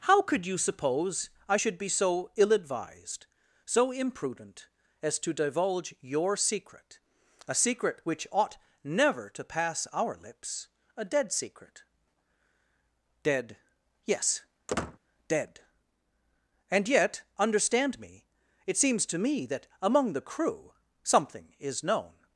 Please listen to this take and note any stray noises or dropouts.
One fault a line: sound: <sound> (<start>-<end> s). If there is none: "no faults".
sound: squeak (14.7-15.0 s)